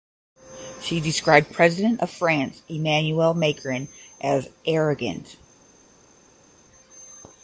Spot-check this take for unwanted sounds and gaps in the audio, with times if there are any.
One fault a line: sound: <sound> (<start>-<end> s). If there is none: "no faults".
no faults